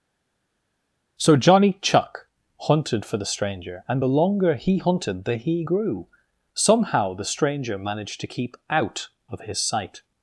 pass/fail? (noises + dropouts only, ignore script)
pass